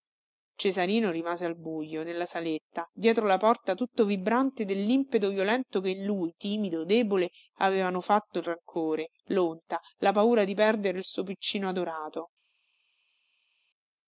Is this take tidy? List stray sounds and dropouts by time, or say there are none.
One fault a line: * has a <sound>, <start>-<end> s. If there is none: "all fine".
all fine